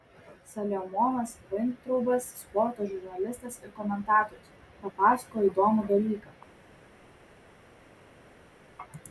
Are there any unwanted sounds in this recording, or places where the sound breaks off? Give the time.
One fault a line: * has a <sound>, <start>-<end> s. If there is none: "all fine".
all fine